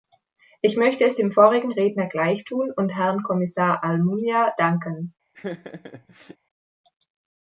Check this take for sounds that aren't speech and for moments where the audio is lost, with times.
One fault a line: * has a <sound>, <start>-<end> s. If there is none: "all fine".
* has a laugh, 5.3-6.4 s